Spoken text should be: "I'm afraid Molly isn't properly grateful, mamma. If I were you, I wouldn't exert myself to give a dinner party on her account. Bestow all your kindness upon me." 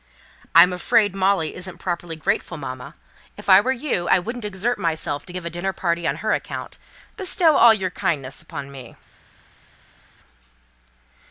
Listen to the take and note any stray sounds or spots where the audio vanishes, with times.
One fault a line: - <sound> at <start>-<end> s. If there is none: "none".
none